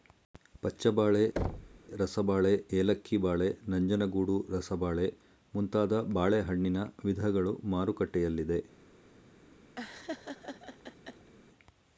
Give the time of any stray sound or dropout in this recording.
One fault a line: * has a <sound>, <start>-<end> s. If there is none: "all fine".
* has a thud, 1.4-1.8 s
* has a laugh, 9.8-11.3 s